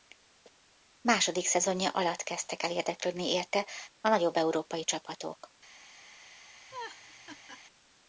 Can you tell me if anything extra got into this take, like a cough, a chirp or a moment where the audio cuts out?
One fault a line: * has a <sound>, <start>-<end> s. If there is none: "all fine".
* has a laugh, 6.7-7.6 s